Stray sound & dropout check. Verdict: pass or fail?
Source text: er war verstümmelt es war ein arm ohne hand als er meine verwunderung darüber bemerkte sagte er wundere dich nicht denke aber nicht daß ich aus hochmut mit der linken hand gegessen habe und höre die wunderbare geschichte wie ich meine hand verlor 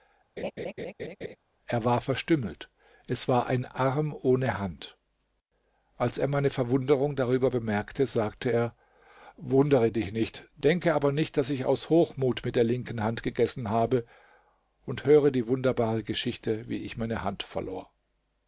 fail